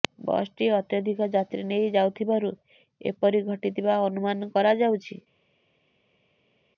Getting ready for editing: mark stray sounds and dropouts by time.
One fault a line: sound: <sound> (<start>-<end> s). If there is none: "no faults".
no faults